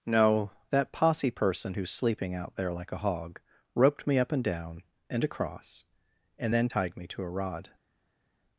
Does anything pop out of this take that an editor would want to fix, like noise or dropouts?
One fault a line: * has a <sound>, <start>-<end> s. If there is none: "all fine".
all fine